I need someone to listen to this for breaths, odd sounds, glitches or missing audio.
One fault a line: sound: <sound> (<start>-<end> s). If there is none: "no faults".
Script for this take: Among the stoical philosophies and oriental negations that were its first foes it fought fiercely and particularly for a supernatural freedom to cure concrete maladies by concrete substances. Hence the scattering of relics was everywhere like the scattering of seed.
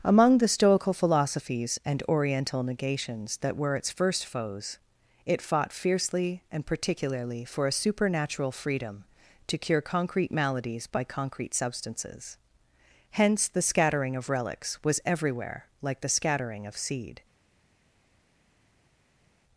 no faults